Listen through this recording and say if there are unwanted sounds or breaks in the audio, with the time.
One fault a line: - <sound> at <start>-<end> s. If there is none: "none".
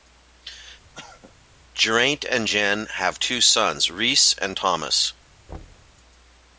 - cough at 0.9-1.3 s
- thud at 5.5-5.9 s